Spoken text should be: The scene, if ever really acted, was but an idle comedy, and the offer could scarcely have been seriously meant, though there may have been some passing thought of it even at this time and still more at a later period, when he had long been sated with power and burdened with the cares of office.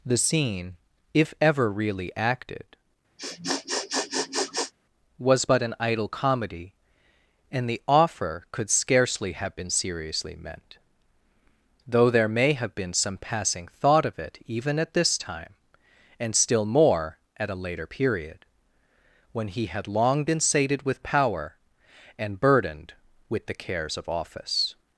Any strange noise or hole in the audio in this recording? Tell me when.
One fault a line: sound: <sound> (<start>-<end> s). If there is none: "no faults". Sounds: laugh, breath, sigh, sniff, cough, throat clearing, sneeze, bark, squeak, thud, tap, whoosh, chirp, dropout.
sound: sniff (3.2-4.7 s)